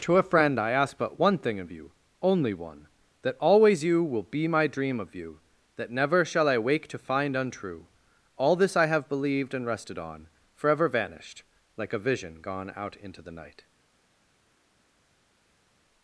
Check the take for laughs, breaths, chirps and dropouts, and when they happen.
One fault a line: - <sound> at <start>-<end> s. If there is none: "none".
none